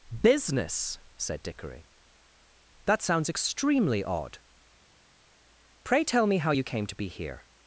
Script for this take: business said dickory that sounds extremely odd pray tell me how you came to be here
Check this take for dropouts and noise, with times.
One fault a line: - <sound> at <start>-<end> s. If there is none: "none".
none